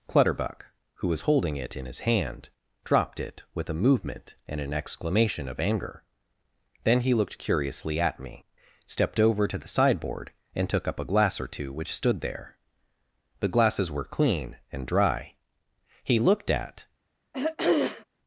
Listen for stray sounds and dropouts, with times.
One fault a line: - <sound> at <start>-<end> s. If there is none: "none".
- throat clearing at 17.3-18.0 s